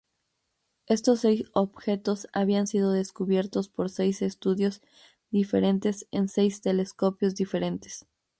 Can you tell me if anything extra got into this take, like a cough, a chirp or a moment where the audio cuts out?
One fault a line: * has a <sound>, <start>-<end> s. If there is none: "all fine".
all fine